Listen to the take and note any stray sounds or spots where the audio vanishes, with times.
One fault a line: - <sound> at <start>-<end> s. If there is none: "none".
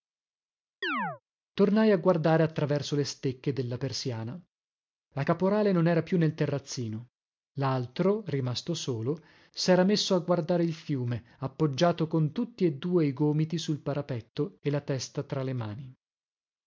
- chirp at 0.8-1.2 s